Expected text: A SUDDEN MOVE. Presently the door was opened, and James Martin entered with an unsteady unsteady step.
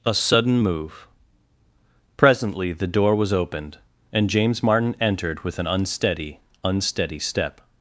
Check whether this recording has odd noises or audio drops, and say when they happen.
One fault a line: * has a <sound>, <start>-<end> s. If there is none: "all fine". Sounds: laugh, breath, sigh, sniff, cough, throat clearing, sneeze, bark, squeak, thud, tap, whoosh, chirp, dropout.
all fine